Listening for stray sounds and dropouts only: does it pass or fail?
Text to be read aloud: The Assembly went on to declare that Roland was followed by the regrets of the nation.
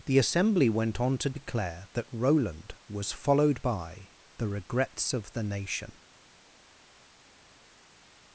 pass